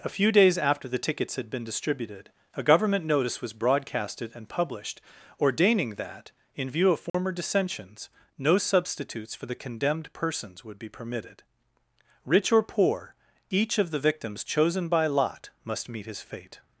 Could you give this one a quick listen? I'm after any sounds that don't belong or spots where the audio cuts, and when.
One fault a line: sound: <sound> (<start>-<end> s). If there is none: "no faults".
sound: dropout (7.1-7.1 s)